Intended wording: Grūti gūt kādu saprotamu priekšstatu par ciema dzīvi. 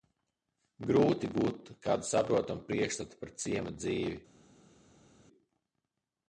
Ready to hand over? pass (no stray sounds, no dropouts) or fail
pass